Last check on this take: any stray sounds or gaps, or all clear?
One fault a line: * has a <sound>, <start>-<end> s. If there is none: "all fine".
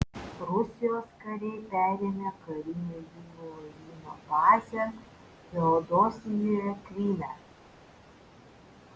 all fine